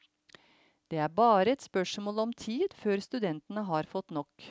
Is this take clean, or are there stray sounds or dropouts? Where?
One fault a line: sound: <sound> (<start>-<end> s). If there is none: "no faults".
no faults